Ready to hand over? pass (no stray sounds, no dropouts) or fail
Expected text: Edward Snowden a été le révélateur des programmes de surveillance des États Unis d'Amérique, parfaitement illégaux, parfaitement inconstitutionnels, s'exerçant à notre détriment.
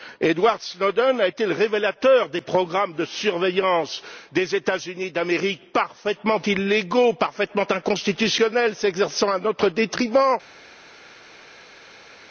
pass